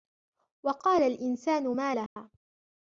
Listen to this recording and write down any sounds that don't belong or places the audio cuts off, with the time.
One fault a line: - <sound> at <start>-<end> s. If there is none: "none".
- dropout at 2.1-2.2 s